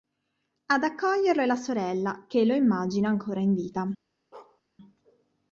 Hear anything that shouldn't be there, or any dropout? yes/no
yes